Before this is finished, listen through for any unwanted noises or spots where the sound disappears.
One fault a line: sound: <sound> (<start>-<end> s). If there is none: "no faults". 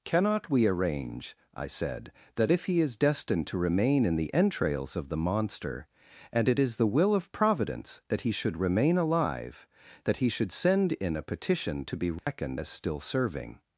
sound: dropout (12.2-12.3 s)